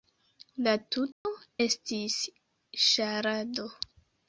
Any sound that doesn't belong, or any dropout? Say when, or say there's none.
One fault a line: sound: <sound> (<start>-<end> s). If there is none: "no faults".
sound: dropout (1.1-1.3 s)